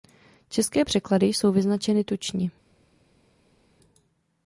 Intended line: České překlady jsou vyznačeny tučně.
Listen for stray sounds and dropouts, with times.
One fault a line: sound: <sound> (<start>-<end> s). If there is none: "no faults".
no faults